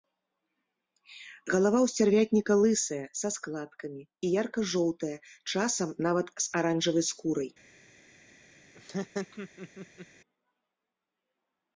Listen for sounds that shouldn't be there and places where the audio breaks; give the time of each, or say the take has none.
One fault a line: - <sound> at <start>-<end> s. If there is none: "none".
- laugh at 8.7-10.1 s